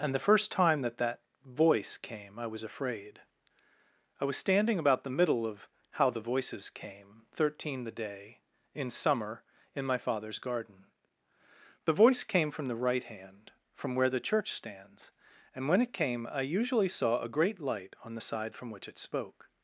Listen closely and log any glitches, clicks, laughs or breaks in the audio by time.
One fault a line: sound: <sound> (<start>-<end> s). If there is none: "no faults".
no faults